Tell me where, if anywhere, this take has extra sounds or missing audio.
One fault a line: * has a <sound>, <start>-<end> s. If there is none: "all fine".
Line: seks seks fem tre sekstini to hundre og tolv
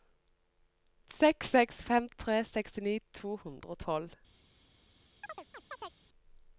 * has a chirp, 5.2-6.0 s